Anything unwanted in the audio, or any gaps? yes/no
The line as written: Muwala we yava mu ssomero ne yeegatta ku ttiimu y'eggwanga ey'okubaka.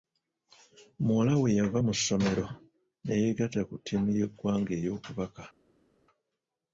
no